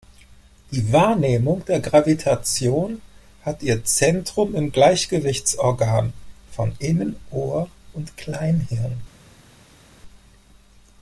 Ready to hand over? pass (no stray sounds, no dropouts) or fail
pass